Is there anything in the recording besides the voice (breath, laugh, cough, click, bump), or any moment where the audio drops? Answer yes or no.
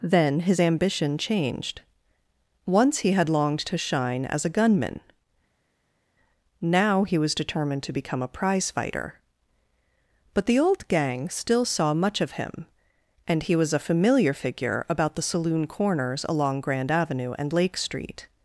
no